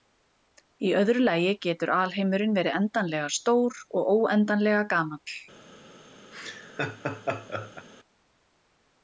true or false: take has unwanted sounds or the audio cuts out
true